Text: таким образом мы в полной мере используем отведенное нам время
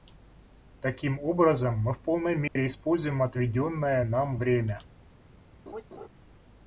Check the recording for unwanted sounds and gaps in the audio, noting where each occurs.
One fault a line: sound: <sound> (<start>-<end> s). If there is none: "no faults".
sound: dropout (2.5-2.6 s)
sound: laugh (5.7-6.1 s)